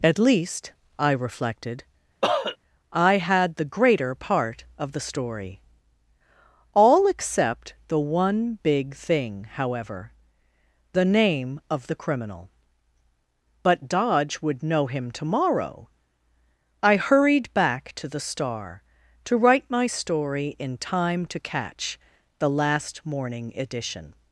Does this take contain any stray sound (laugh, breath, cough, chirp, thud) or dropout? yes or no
yes